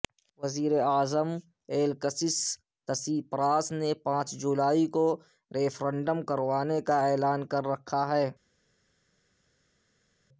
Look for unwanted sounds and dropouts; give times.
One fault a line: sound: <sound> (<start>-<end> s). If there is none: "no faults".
no faults